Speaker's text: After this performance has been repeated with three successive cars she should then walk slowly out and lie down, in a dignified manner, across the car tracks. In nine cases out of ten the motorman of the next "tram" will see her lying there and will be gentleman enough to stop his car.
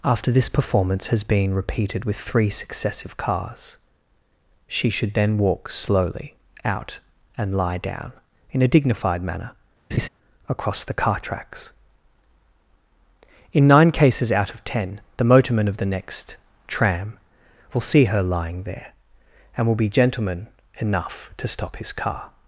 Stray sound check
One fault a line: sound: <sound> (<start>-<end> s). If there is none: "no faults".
sound: laugh (9.9-10.1 s)